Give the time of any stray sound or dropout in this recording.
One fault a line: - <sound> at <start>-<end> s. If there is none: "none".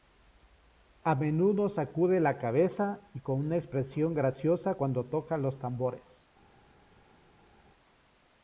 none